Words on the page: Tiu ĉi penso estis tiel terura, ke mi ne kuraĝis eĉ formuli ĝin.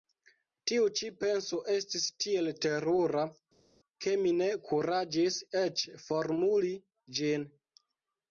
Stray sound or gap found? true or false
false